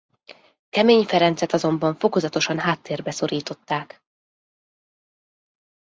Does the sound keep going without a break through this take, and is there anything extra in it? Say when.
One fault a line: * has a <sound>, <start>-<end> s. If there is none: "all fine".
all fine